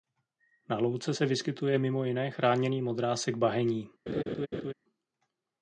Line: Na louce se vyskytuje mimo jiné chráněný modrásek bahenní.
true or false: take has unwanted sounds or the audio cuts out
true